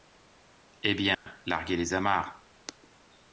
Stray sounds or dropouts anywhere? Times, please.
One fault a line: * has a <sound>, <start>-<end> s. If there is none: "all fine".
* has a dropout, 1.1-1.3 s